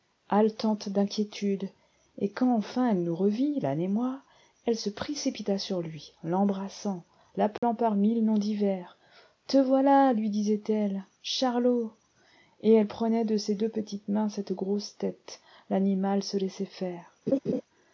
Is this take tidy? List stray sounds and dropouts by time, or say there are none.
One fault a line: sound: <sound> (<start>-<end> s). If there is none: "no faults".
sound: dropout (7.6-7.6 s)
sound: laugh (17.3-17.6 s)